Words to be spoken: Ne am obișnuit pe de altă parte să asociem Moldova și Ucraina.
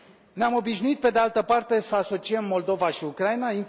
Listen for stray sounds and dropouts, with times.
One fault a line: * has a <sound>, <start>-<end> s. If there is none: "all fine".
all fine